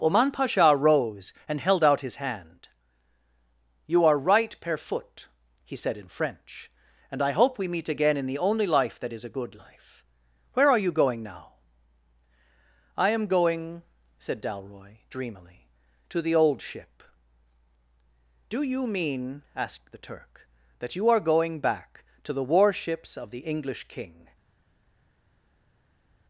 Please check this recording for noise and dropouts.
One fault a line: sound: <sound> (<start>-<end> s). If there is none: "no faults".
no faults